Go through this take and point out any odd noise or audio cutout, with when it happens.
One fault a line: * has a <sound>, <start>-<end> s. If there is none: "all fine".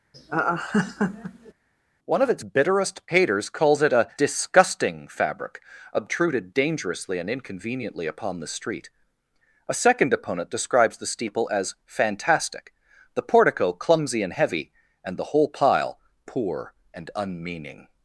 * has a laugh, 0.1-1.5 s